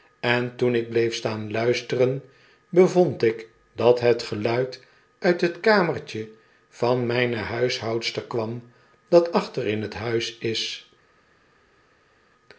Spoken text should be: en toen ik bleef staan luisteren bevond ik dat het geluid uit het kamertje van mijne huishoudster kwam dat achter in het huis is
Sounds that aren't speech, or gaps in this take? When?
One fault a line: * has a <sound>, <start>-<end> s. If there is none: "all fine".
all fine